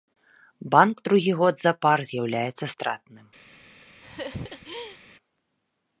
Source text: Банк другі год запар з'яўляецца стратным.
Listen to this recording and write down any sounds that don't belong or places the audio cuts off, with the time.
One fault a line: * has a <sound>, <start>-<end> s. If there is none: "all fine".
* has a laugh, 4.0-5.0 s